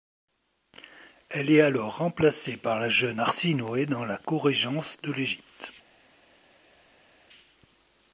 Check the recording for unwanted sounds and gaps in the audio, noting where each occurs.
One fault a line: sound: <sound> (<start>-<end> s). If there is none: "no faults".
no faults